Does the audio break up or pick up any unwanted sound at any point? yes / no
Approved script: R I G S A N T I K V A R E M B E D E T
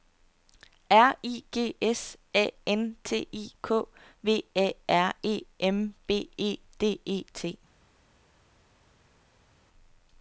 no